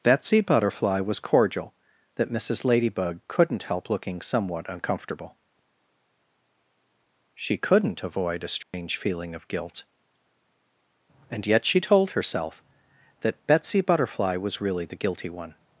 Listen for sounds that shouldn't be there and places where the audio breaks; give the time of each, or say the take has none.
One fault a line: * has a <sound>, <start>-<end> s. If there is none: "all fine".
* has a dropout, 8.6-8.7 s